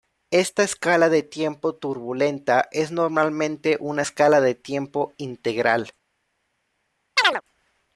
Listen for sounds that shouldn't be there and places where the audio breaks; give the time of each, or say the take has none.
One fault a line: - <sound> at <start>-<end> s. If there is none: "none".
- chirp at 7.2-7.4 s